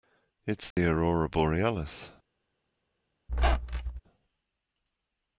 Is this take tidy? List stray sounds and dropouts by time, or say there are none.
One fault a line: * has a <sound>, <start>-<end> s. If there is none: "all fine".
* has a dropout, 0.7-0.8 s
* has a squeak, 3.3-4.0 s